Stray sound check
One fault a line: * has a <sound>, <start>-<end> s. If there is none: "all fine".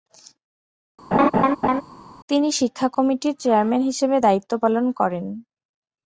* has a laugh, 1.1-1.8 s